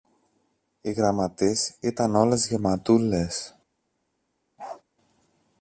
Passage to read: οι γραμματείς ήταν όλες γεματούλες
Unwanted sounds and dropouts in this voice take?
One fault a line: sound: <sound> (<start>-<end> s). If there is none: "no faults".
sound: bark (4.6-4.8 s)